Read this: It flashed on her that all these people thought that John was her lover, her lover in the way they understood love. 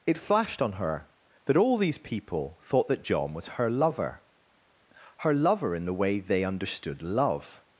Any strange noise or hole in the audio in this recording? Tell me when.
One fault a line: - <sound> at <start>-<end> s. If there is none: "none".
none